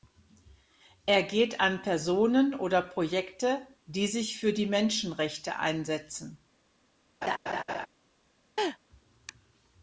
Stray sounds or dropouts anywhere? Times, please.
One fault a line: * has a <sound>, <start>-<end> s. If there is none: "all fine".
* has a laugh, 7.2-7.9 s
* has a laugh, 8.6-8.8 s